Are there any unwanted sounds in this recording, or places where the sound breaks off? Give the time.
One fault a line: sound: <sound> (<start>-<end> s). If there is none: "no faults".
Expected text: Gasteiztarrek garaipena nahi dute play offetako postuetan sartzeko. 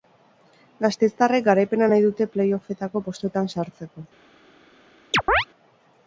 sound: chirp (5.1-5.5 s)